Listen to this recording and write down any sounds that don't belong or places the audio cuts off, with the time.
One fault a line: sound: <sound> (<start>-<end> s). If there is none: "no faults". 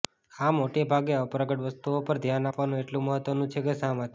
no faults